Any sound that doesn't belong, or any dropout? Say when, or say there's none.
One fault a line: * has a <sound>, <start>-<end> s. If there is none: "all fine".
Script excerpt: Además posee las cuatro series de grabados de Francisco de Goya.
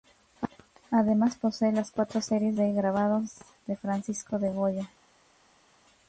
all fine